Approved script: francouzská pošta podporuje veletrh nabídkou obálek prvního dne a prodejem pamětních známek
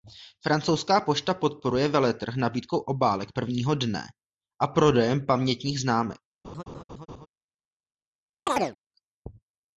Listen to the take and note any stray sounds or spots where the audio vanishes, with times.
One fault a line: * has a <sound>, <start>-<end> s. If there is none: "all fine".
* has a laugh, 6.4-7.3 s
* has a chirp, 8.5-8.8 s